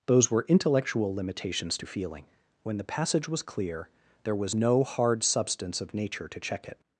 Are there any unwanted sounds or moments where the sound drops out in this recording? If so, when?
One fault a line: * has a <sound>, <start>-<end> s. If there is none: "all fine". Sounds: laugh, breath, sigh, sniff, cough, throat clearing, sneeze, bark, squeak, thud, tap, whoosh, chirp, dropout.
all fine